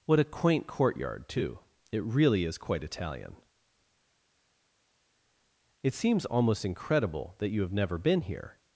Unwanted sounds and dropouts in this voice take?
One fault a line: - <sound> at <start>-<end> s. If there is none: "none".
none